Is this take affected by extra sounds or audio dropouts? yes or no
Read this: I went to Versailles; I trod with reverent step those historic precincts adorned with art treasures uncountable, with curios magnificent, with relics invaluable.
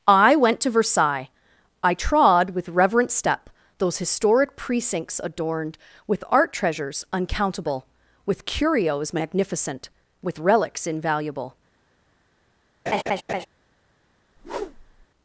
yes